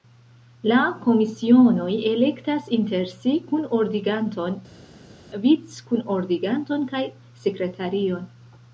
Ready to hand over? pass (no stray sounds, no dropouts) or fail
pass